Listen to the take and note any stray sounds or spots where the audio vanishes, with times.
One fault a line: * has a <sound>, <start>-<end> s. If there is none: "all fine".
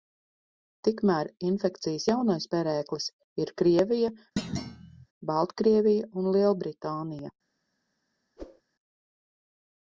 * has a thud, 4.4-5.1 s
* has a whoosh, 8.4-8.6 s